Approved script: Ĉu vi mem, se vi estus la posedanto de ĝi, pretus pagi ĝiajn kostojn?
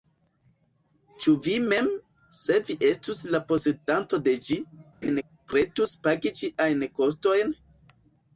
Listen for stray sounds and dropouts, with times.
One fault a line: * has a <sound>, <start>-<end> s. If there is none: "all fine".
* has a laugh, 5.0-5.2 s